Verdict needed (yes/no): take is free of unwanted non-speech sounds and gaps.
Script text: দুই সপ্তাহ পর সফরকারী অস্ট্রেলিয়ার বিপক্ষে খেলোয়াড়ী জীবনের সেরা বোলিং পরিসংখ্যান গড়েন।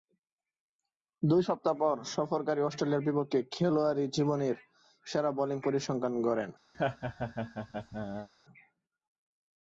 no